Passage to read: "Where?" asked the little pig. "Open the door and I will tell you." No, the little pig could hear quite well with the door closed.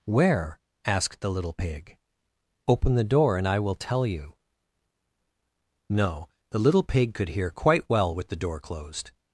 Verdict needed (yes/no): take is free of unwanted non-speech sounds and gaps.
yes